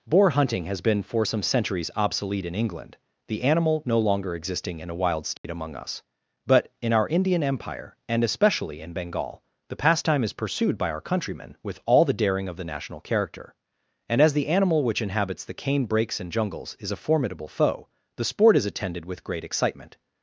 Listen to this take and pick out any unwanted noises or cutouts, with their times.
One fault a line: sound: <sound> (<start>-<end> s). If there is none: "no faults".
sound: dropout (5.4-5.4 s)